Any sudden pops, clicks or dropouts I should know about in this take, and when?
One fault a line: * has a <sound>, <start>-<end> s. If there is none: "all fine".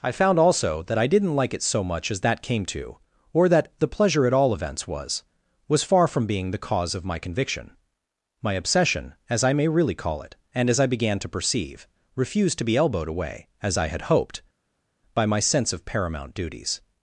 all fine